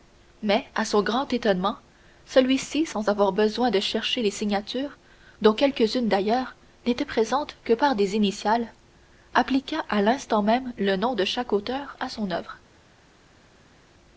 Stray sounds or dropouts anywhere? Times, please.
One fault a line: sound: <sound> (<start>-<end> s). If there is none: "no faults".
no faults